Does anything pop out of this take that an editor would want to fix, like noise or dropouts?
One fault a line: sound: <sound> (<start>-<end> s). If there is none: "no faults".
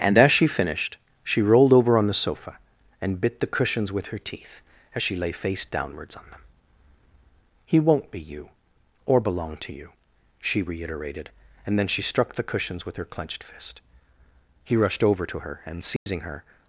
sound: dropout (16.0-16.1 s)